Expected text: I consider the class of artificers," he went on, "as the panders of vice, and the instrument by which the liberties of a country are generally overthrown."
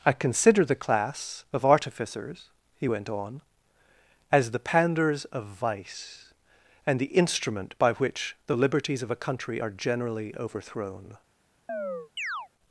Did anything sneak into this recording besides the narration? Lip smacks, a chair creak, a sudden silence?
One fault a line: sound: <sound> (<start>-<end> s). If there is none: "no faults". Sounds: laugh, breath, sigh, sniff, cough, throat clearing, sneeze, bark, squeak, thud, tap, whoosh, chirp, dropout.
sound: chirp (11.7-12.5 s)